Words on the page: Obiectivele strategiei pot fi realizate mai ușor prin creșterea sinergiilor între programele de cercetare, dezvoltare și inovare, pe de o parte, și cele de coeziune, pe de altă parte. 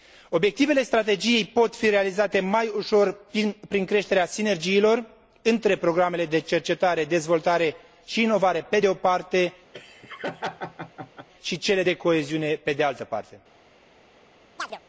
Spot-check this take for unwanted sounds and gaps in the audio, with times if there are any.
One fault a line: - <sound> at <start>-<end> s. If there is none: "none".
- laugh at 9.7-11.3 s
- chirp at 14.6-14.8 s